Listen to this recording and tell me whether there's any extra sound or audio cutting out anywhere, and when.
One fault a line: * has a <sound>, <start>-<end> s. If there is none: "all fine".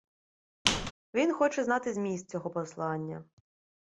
* has a squeak, 0.7-0.9 s